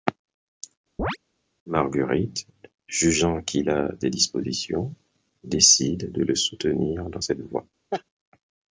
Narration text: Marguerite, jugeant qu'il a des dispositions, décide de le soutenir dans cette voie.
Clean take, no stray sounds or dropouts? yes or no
no